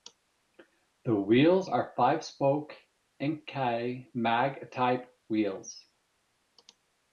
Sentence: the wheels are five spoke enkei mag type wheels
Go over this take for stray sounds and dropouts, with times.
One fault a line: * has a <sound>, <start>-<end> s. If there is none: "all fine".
all fine